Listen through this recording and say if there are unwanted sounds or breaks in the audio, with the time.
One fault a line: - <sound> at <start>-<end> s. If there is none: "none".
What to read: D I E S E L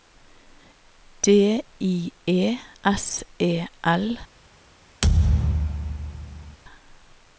- thud at 5.0-6.6 s